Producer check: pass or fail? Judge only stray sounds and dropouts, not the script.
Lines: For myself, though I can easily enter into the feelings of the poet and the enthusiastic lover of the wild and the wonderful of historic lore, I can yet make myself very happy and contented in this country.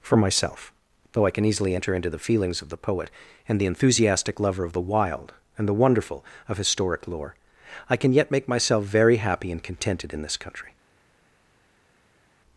pass